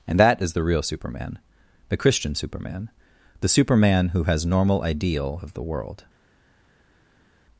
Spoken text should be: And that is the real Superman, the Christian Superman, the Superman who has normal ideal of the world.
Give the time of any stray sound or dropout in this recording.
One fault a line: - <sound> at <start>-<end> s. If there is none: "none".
none